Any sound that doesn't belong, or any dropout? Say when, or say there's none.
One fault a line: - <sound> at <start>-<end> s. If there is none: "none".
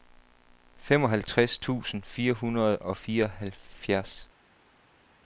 none